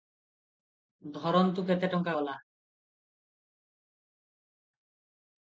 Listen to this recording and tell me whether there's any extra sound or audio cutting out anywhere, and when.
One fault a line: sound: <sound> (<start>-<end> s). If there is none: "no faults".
no faults